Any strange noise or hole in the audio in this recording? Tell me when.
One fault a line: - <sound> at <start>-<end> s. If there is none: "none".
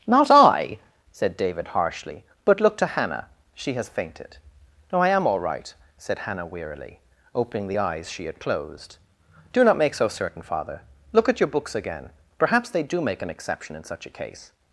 none